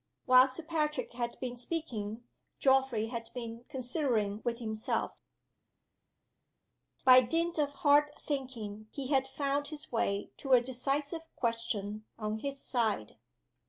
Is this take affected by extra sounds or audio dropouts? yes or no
no